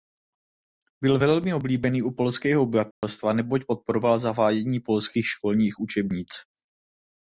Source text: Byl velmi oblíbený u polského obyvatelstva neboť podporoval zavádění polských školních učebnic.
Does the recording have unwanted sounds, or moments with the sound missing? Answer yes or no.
yes